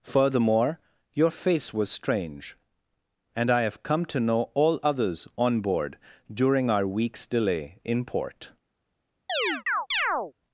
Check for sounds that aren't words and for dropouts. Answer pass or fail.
fail